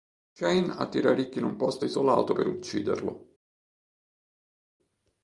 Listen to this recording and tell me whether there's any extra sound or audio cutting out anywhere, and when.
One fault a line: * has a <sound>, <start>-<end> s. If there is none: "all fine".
all fine